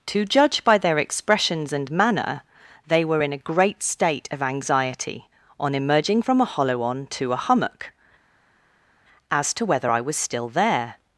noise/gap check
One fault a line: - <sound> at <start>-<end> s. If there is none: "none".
none